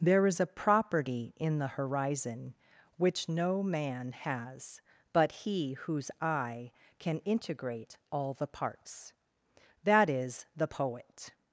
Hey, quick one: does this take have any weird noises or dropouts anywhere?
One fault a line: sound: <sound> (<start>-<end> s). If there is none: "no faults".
no faults